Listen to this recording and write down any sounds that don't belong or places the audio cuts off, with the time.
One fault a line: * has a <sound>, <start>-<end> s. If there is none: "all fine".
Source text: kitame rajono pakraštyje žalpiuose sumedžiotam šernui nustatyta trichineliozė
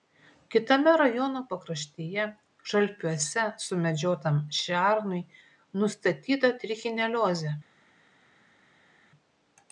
all fine